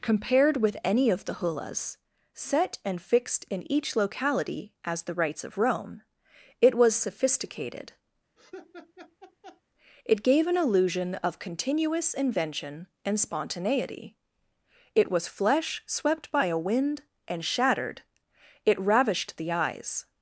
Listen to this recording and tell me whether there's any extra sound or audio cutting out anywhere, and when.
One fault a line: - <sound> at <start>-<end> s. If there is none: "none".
- laugh at 8.4-9.6 s